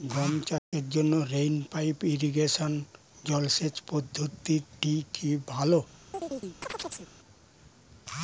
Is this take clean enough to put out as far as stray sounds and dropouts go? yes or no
no